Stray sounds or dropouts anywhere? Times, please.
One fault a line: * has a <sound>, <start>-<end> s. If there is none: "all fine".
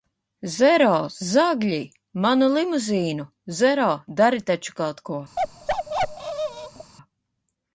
* has a bark, 5.4-6.9 s